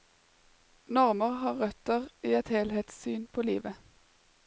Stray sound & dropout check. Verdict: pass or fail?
pass